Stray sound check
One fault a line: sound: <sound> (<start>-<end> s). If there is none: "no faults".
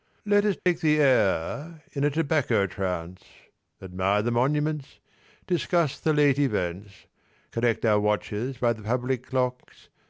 sound: dropout (0.6-0.7 s)